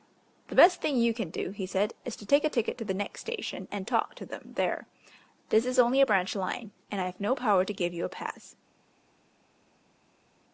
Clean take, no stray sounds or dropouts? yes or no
yes